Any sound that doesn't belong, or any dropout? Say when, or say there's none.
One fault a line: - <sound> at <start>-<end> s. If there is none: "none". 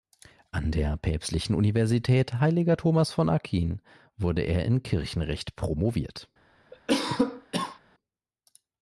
- cough at 6.7-7.8 s